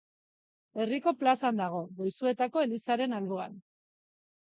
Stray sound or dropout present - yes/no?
no